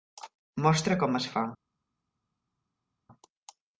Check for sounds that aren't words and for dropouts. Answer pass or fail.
pass